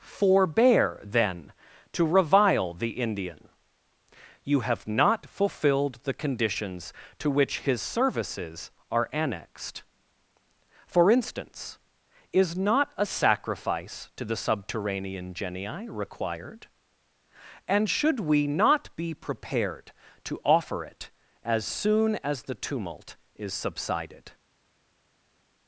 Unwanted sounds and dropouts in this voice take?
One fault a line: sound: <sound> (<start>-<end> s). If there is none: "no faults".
no faults